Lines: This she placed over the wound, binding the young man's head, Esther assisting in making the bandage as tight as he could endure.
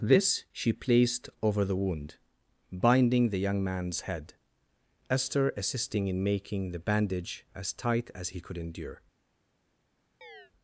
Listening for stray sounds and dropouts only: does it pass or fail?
fail